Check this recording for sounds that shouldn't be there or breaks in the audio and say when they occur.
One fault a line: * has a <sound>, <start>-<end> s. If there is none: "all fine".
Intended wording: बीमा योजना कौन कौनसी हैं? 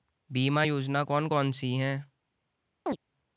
* has a chirp, 2.9-3.0 s